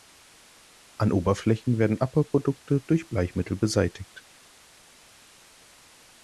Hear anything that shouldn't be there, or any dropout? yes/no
no